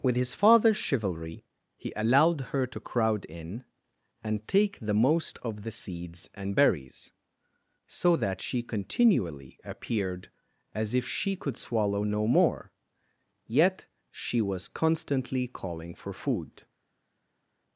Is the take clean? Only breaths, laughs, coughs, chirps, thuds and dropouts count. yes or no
yes